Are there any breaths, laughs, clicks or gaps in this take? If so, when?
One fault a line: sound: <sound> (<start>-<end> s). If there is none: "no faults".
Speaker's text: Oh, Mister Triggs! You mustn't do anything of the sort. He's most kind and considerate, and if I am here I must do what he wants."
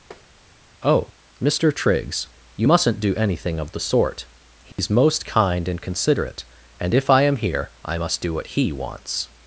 sound: tap (0.1-0.3 s)
sound: dropout (4.7-4.8 s)